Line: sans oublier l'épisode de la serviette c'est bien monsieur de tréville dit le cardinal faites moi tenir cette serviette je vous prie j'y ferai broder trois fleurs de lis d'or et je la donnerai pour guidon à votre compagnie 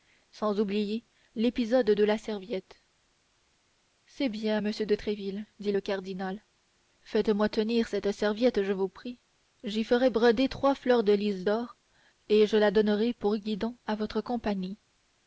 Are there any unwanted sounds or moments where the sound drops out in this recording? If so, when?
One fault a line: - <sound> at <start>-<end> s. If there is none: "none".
none